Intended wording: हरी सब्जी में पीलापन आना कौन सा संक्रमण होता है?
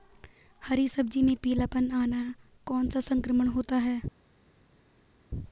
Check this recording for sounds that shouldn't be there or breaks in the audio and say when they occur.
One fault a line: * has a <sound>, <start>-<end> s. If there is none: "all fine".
all fine